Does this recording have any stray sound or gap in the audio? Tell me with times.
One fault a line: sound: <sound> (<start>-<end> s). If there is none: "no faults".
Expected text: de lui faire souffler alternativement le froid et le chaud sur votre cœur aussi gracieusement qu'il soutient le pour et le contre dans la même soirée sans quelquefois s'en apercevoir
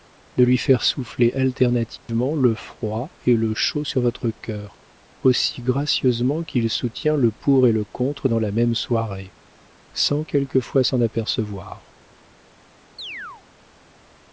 sound: dropout (2.0-2.1 s)
sound: chirp (13.0-13.4 s)